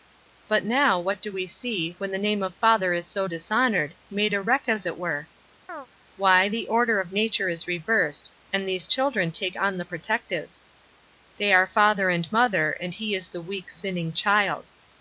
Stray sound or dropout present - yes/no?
yes